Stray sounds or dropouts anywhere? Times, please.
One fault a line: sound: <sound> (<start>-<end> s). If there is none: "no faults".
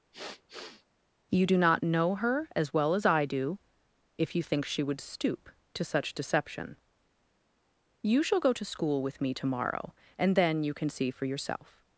sound: sniff (0.1-0.9 s)